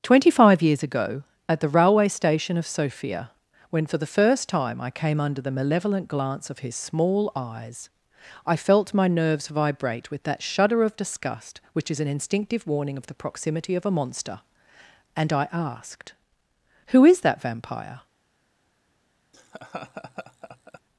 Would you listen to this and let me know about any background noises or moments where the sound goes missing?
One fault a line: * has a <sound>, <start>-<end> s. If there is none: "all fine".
* has a laugh, 19.3-20.8 s